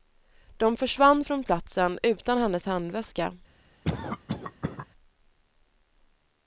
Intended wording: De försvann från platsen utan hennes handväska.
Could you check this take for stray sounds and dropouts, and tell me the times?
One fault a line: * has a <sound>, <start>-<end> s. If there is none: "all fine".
* has a cough, 3.8-4.9 s